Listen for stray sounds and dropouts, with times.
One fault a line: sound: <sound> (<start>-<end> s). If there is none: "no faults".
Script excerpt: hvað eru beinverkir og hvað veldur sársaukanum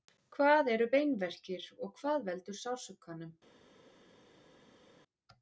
no faults